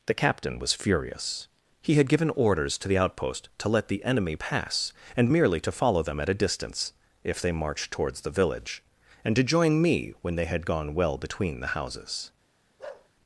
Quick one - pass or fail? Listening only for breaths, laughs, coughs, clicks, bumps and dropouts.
fail